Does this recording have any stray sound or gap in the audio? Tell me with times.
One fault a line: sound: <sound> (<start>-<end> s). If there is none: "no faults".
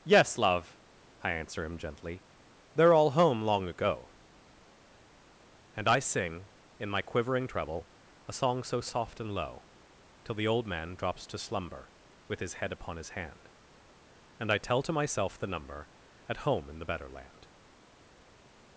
no faults